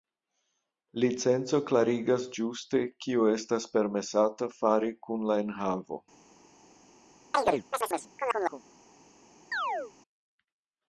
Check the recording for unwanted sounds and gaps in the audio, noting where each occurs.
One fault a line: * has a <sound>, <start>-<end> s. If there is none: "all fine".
* has a chirp, 7.3-8.6 s
* has a chirp, 9.5-9.9 s